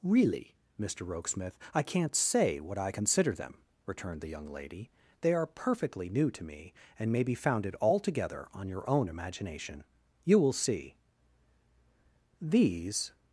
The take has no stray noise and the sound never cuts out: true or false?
true